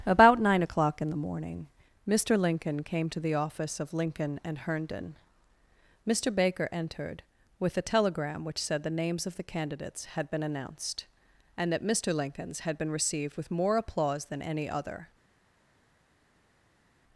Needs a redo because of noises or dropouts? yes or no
no